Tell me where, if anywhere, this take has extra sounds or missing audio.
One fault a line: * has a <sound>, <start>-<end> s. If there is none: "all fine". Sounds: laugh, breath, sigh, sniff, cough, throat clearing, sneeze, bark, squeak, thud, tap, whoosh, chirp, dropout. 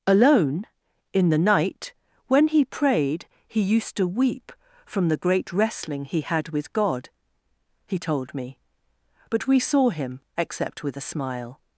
all fine